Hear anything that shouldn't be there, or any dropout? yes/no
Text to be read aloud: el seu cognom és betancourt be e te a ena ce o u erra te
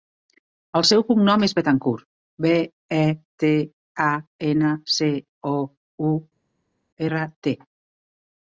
no